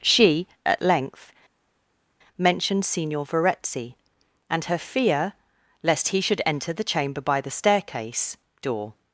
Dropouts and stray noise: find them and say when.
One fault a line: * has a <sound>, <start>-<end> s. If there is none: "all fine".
all fine